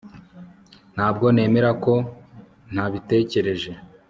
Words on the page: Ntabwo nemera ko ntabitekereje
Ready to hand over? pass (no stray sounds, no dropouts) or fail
pass